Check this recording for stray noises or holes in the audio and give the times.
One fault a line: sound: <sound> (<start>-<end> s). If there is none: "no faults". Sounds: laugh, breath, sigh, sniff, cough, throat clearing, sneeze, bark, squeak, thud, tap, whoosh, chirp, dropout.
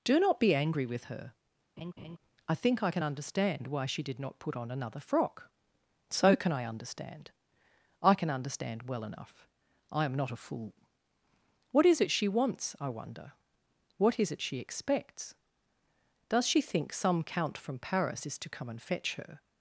sound: laugh (1.8-2.2 s)